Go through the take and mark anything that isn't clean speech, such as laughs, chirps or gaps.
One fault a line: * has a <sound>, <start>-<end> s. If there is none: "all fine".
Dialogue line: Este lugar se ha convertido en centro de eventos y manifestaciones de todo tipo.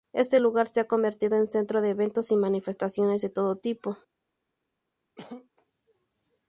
* has a cough, 5.2-5.5 s